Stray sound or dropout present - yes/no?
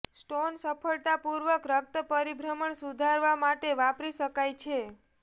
no